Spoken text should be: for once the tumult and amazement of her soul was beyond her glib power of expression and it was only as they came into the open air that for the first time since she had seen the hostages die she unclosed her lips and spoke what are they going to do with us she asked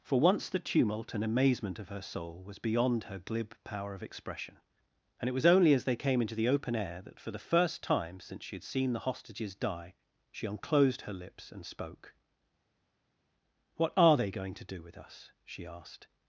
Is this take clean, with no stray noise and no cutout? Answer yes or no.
yes